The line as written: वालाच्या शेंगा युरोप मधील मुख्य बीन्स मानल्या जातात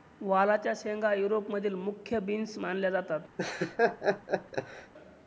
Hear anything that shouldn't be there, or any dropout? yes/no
yes